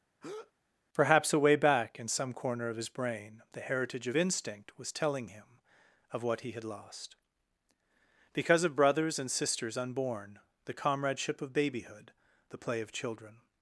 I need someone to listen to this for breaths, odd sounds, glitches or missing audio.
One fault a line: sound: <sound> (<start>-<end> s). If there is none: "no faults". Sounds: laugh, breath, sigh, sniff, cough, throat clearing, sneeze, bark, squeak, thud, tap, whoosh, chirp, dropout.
sound: breath (0.2-0.5 s)